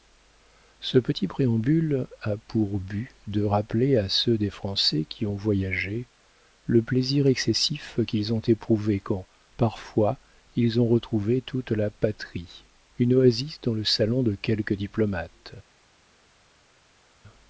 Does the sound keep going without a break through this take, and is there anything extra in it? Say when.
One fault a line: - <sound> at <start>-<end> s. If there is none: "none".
none